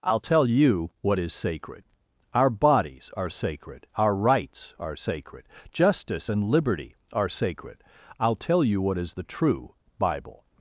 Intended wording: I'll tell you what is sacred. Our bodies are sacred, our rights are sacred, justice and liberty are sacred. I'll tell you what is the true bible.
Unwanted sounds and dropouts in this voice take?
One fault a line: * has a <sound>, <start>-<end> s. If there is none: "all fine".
all fine